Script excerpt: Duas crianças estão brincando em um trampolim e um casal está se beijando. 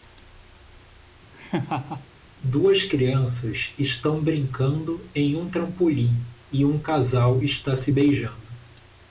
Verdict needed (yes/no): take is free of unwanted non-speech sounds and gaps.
no